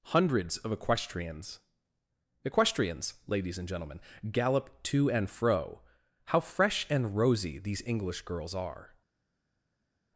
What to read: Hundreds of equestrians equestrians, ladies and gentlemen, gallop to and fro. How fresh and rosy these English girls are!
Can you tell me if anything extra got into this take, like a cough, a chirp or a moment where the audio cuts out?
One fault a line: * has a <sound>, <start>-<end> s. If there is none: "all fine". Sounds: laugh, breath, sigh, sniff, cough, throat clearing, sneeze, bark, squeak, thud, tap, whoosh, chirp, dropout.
all fine